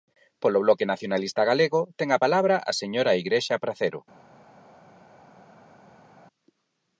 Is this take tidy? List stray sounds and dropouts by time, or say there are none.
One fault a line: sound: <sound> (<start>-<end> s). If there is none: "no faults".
no faults